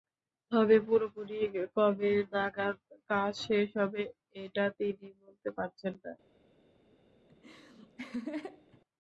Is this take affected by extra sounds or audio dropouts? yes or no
yes